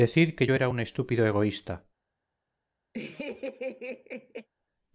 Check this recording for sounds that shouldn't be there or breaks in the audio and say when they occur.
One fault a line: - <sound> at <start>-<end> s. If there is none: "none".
- laugh at 2.9-4.5 s